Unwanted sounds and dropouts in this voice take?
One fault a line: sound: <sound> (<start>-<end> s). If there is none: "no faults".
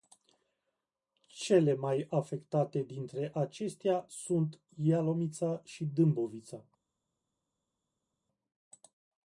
no faults